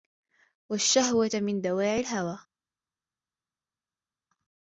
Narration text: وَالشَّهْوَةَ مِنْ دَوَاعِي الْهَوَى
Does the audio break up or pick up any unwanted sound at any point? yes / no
no